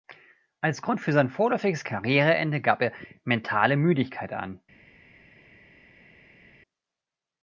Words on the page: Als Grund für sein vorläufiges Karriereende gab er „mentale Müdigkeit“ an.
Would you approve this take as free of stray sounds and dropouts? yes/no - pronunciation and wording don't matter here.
yes